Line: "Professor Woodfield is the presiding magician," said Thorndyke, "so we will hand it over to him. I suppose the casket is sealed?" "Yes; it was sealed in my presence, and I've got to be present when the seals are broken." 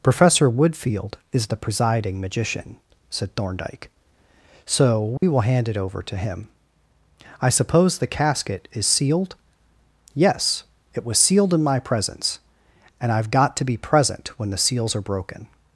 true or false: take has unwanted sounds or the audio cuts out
true